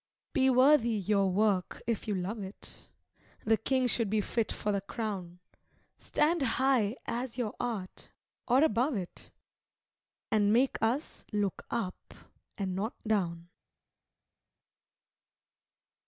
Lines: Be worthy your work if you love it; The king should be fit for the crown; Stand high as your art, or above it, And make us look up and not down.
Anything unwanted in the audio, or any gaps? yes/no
no